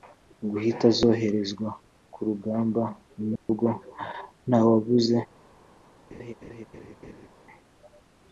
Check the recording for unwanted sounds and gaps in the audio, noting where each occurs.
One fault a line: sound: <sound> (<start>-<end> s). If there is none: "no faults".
sound: dropout (3.4-3.5 s)
sound: laugh (6.1-7.3 s)